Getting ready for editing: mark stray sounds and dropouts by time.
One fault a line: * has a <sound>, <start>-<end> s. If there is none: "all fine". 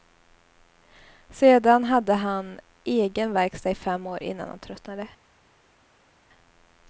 all fine